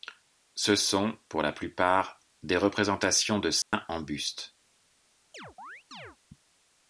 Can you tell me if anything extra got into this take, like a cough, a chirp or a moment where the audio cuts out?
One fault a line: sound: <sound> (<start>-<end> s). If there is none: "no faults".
sound: dropout (3.6-3.7 s)
sound: chirp (5.3-6.2 s)